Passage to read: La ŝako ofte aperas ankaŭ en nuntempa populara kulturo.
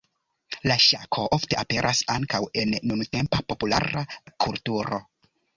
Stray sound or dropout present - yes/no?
no